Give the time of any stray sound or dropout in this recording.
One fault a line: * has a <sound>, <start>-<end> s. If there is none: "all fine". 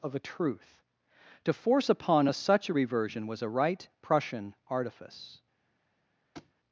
* has a thud, 6.3-6.5 s